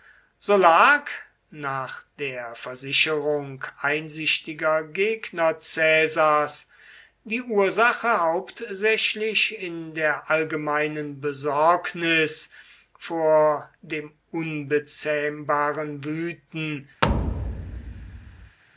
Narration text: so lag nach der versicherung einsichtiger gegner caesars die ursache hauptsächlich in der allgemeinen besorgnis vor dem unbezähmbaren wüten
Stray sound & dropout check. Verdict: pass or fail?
fail